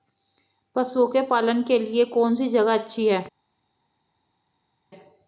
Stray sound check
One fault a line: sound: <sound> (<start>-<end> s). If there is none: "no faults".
no faults